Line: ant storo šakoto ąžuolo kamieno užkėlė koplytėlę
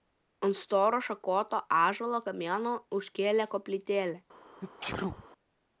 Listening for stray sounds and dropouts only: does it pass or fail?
fail